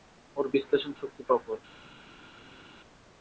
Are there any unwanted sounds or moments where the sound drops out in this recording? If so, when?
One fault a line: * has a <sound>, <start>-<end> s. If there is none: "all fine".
all fine